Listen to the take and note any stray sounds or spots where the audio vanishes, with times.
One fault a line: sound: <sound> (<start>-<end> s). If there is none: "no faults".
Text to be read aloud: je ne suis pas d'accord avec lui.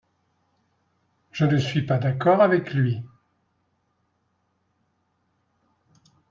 no faults